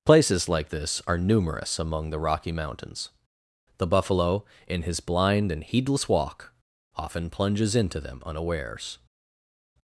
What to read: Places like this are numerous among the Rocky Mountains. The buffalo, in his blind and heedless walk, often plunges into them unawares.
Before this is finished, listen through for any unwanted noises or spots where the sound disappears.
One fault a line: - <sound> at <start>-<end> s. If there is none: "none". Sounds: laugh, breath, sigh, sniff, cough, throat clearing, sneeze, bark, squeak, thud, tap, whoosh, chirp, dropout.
none